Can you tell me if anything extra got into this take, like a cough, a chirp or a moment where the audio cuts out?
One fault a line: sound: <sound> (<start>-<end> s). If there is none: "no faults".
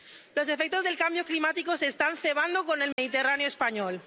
sound: dropout (2.9-3.0 s)